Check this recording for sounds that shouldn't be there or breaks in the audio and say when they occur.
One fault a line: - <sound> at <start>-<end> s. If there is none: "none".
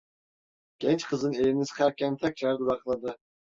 none